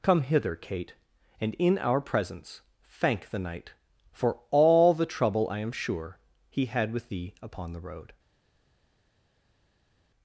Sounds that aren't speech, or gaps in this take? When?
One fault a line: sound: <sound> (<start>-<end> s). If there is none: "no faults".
no faults